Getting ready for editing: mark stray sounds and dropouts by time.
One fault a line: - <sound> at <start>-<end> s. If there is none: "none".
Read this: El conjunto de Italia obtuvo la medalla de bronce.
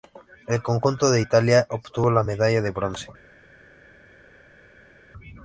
none